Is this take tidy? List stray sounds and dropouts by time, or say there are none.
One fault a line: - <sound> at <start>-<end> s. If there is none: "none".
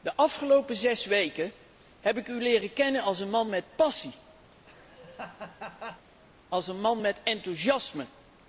- laugh at 4.5-6.1 s